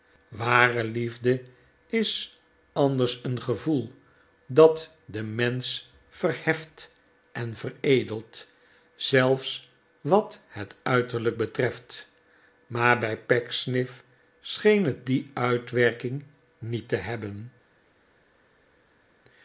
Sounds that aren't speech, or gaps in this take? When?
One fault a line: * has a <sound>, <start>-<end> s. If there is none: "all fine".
all fine